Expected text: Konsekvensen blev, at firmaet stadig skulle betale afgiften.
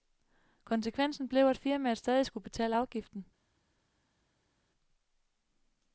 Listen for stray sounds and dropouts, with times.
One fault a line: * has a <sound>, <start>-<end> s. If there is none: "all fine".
all fine